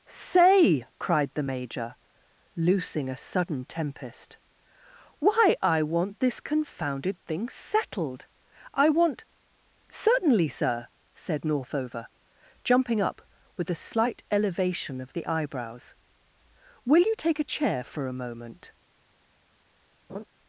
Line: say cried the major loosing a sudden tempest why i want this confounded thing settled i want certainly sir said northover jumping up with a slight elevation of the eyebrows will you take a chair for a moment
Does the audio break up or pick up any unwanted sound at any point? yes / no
yes